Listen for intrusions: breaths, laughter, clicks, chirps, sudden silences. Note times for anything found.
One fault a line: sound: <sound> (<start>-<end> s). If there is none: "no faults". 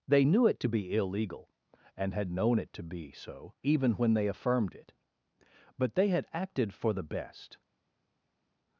no faults